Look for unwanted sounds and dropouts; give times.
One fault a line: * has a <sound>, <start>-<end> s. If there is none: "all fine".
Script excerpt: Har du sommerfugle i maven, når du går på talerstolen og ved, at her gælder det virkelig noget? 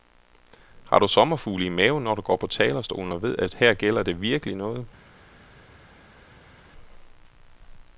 all fine